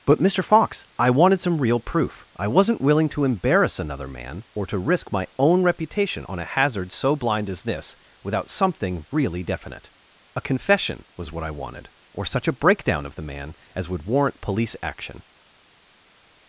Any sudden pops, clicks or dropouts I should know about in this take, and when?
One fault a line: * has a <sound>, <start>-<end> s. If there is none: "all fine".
all fine